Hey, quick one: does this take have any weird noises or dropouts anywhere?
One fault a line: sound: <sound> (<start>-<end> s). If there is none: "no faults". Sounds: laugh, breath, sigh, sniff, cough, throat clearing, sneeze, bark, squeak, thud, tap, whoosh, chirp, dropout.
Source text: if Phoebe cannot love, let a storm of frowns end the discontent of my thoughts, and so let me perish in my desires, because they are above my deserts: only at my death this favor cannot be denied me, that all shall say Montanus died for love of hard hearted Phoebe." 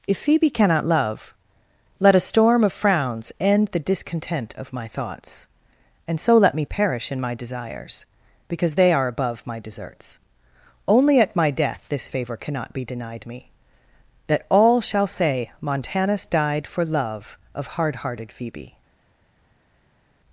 no faults